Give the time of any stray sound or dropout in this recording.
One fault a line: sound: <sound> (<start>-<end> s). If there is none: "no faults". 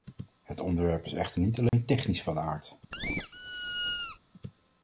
sound: dropout (1.7-1.7 s)
sound: squeak (2.9-4.2 s)